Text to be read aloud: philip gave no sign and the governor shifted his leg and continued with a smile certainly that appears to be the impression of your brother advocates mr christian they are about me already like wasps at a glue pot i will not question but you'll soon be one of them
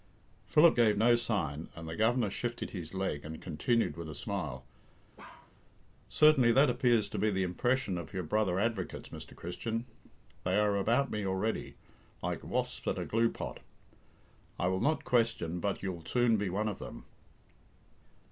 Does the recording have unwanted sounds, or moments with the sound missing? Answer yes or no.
yes